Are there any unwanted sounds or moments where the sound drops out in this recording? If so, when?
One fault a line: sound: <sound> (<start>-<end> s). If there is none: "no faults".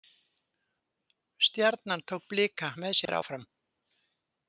sound: dropout (3.1-3.1 s)